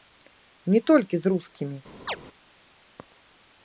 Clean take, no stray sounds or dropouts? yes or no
no